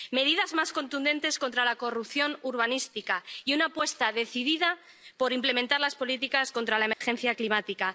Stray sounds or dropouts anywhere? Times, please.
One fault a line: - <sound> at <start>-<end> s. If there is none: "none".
- dropout at 6.9-7.0 s